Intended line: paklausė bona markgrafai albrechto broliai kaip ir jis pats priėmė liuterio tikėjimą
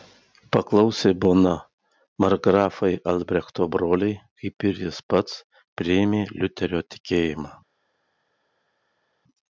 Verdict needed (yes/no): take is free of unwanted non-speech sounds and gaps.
yes